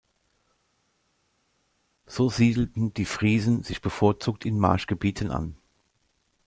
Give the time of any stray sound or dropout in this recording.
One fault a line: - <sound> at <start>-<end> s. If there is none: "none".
none